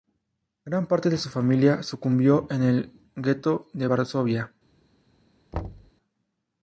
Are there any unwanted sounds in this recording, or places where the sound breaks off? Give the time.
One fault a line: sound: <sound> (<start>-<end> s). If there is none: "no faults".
sound: thud (5.5-5.9 s)